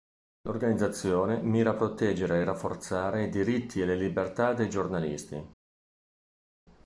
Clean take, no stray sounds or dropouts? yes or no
yes